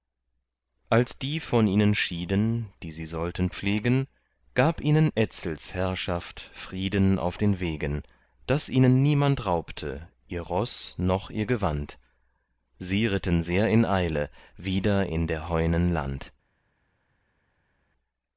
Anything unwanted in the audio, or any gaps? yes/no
no